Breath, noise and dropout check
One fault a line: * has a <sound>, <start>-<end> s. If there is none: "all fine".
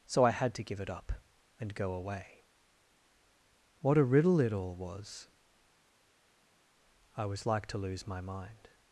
all fine